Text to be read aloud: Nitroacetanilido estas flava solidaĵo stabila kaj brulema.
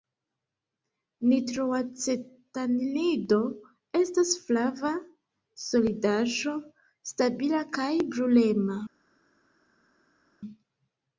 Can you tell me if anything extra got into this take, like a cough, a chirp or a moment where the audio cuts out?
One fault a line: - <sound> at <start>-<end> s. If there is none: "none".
none